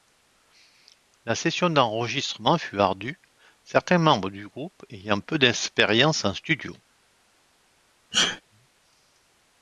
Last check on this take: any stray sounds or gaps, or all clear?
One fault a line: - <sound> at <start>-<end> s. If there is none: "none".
- sneeze at 8.1-8.4 s